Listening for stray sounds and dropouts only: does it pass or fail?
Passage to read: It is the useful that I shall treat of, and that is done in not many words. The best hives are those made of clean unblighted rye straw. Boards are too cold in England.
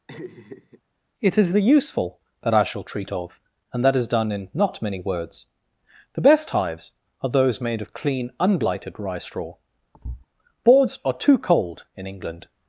fail